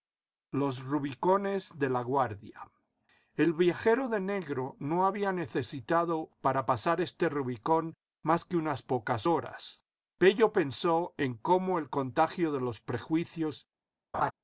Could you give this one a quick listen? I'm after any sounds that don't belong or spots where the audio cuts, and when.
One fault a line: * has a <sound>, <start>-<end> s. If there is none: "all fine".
* has a laugh, 14.1-14.3 s